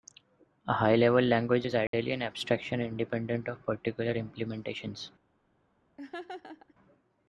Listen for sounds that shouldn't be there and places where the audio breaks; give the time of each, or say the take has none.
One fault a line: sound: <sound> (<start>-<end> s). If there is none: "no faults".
sound: dropout (1.9-1.9 s)
sound: laugh (6.0-6.7 s)